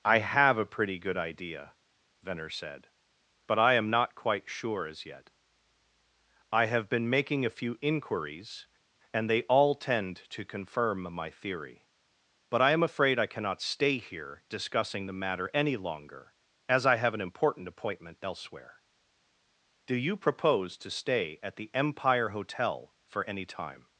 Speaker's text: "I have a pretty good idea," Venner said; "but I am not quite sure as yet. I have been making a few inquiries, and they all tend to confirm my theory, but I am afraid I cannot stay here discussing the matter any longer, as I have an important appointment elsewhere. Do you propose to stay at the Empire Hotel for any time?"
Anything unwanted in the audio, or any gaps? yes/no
no